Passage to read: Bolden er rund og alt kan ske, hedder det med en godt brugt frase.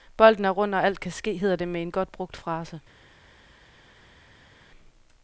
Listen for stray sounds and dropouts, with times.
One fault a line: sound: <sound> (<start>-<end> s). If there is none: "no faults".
no faults